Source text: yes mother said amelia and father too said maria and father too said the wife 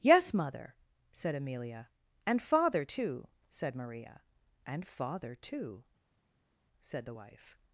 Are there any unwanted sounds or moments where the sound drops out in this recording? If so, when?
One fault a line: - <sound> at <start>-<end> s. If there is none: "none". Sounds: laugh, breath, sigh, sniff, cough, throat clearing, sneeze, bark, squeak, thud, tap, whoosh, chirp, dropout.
none